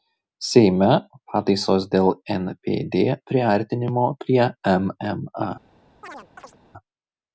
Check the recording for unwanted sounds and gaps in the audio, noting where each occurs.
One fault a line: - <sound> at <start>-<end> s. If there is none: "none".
- chirp at 6.0-6.6 s